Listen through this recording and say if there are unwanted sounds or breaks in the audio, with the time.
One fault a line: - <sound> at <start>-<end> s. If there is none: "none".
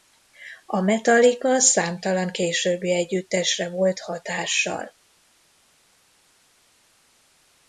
none